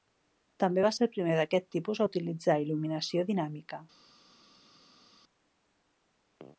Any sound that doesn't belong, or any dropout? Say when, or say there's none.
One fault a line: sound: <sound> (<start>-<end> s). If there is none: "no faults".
no faults